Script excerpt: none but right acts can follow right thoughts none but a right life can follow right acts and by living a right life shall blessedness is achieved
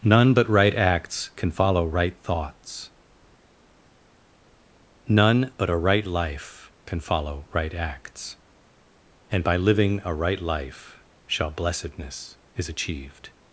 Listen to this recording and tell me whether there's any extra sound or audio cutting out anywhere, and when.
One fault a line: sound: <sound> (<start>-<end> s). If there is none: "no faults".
no faults